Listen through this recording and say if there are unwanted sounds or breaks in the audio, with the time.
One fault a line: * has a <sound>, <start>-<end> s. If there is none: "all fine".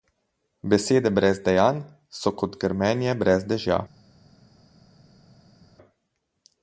all fine